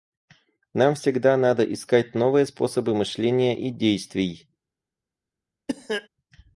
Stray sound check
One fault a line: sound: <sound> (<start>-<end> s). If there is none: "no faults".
sound: cough (5.7-6.1 s)